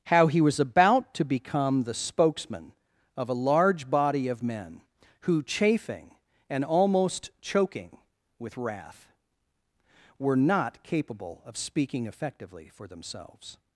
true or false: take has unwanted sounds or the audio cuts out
false